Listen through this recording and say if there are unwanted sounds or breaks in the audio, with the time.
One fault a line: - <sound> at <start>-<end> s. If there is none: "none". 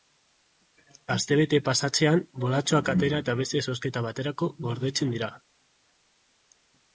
none